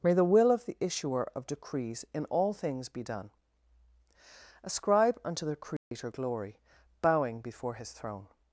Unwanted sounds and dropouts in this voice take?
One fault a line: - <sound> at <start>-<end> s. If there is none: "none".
- dropout at 5.8-5.9 s